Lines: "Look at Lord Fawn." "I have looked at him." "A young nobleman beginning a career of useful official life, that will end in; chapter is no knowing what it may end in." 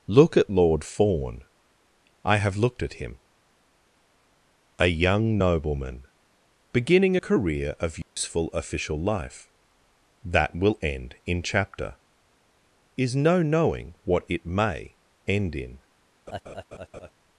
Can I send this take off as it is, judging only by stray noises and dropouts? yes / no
no